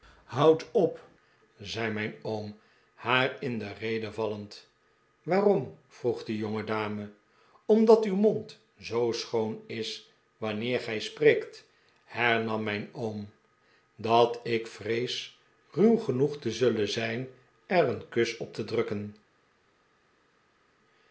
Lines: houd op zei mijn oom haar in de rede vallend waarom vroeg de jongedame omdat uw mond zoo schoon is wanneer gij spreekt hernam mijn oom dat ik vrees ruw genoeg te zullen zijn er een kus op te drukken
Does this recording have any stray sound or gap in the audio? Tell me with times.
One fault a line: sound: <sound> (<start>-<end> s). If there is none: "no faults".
no faults